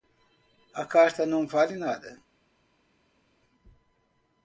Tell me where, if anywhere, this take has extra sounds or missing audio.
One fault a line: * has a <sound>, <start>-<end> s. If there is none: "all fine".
all fine